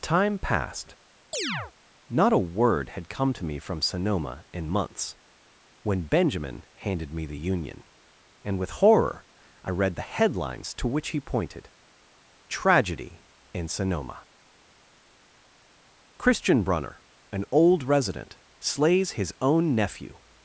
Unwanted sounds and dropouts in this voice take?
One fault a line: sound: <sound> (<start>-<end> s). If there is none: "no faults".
sound: chirp (1.3-1.7 s)